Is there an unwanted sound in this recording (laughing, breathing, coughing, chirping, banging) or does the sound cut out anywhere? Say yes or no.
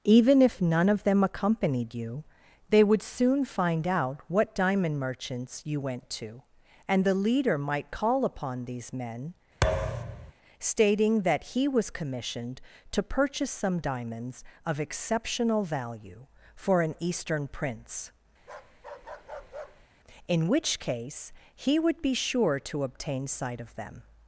yes